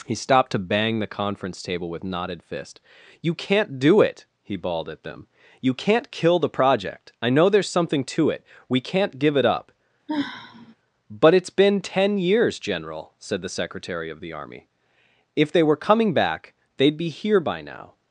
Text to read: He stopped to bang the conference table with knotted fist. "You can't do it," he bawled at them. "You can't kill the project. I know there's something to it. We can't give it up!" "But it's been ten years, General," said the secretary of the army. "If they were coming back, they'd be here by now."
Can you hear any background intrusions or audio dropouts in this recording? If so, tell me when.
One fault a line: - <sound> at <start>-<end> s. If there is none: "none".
- sigh at 10.1-10.8 s